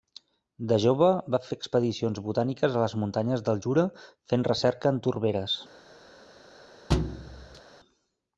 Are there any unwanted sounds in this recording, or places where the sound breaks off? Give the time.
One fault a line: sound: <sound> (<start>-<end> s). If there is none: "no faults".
sound: thud (6.9-7.6 s)